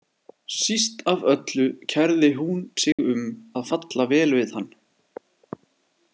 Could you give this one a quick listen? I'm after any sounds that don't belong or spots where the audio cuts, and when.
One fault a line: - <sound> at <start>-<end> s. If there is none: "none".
- dropout at 2.9-3.0 s